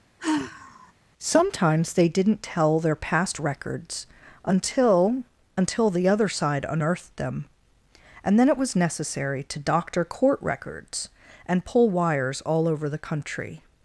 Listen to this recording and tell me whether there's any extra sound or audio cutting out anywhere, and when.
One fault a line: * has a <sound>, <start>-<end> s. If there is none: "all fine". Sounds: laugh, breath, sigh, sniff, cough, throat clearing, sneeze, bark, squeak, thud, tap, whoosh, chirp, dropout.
* has a sigh, 0.2-0.9 s